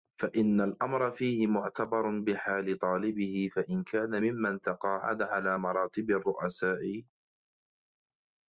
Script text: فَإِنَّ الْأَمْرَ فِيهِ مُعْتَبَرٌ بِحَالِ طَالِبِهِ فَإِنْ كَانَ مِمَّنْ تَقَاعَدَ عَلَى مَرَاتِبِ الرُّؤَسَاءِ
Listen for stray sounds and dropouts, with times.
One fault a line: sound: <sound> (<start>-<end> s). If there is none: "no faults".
no faults